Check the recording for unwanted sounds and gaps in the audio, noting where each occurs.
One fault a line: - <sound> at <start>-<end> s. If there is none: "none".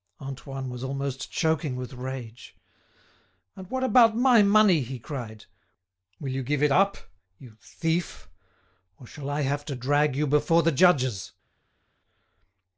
none